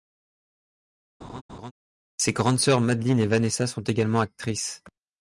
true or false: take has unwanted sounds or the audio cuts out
true